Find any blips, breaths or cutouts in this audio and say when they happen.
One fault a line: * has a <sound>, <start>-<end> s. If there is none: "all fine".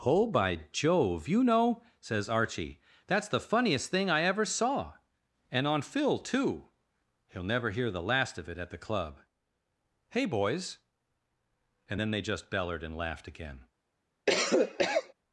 * has a cough, 14.3-15.1 s